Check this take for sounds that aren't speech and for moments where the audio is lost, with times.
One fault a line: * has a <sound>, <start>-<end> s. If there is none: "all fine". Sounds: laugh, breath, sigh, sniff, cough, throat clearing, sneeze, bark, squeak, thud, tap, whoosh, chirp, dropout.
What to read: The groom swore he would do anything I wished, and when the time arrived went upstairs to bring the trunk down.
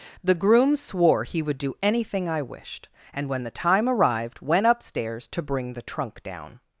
all fine